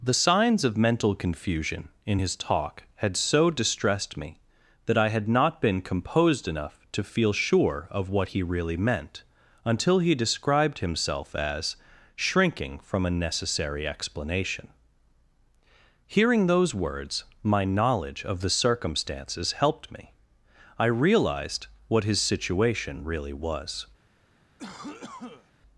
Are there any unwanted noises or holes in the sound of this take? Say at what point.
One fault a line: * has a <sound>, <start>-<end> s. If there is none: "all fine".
* has a cough, 24.6-25.5 s